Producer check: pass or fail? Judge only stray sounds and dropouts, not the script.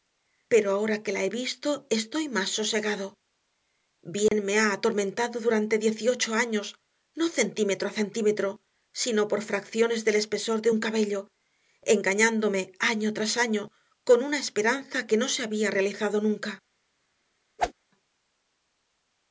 fail